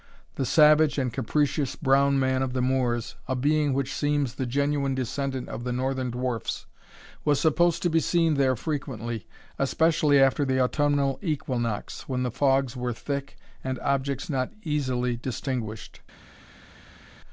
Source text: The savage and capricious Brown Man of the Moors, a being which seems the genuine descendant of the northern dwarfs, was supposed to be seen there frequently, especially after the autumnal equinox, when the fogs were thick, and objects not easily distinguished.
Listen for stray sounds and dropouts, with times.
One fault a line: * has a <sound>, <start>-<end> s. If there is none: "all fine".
all fine